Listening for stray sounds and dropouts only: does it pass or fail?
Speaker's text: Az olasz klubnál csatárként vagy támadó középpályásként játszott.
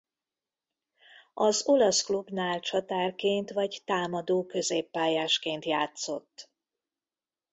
pass